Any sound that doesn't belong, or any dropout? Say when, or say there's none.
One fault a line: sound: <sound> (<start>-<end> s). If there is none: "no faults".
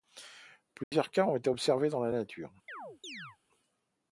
sound: dropout (0.8-0.9 s)
sound: chirp (2.7-3.4 s)